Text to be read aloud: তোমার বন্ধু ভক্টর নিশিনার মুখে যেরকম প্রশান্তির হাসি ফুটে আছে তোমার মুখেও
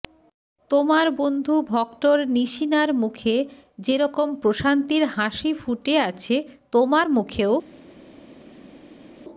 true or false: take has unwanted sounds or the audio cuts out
false